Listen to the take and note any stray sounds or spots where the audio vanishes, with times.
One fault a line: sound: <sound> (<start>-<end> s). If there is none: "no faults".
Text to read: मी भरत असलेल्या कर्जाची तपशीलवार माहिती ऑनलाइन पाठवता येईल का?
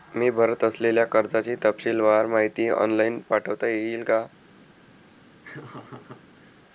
sound: laugh (5.4-6.6 s)